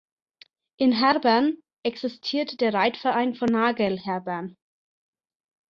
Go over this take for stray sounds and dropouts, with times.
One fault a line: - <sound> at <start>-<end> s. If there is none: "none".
none